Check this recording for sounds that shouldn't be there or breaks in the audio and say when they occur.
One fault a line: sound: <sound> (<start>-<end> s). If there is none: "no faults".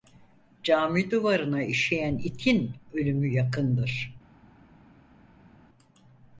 no faults